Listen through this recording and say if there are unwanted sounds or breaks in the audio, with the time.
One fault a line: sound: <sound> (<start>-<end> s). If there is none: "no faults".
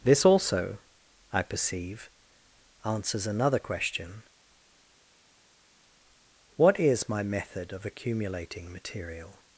no faults